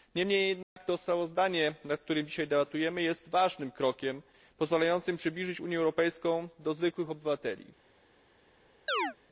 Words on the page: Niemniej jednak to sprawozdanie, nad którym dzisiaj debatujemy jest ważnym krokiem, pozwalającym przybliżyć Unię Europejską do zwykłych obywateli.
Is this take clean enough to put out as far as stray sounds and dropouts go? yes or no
no